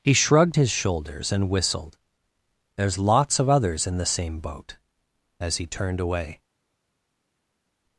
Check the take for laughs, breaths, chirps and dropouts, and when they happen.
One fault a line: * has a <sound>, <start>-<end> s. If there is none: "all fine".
all fine